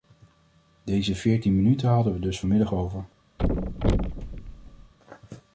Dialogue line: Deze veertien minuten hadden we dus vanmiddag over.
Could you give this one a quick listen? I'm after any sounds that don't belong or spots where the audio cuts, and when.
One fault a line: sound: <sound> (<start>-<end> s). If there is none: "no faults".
sound: thud (3.4-4.9 s)